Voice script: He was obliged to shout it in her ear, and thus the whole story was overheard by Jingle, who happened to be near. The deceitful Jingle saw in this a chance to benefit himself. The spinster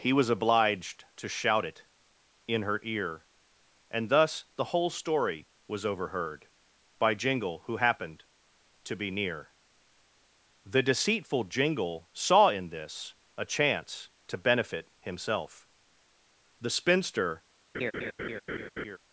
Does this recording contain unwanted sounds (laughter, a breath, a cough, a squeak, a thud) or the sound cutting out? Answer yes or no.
yes